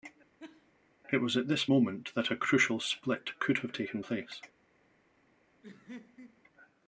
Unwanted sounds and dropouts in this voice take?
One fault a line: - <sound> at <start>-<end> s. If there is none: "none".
- laugh at 0.4-0.7 s
- laugh at 5.6-6.4 s